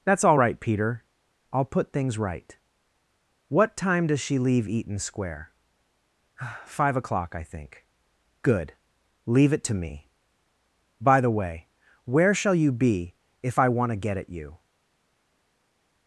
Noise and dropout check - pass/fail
pass